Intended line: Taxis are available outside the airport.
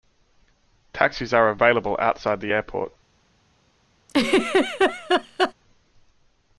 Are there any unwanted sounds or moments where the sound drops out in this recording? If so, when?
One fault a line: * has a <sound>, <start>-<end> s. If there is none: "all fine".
* has a laugh, 4.1-5.5 s